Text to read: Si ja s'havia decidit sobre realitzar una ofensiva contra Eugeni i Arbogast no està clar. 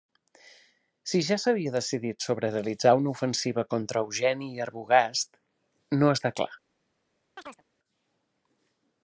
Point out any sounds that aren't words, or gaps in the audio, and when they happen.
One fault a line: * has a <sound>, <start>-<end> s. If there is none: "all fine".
* has a chirp, 7.4-7.6 s